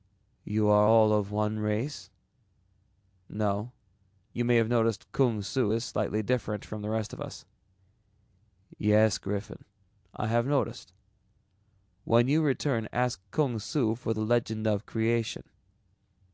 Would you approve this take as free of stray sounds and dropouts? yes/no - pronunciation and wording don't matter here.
yes